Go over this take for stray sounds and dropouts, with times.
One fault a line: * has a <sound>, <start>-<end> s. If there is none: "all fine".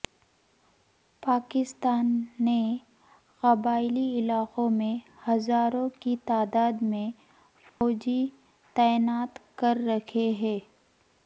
* has a dropout, 7.7-7.8 s